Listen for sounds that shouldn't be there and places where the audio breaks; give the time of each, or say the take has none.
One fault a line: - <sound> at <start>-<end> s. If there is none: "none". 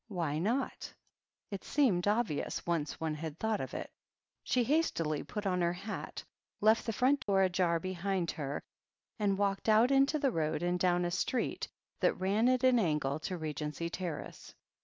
- dropout at 7.2-7.3 s